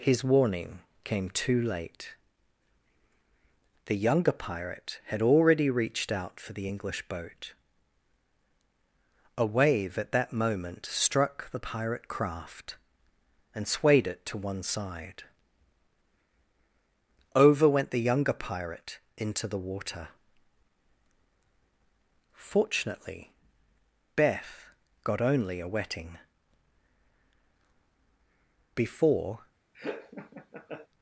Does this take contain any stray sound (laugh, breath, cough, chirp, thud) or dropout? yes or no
yes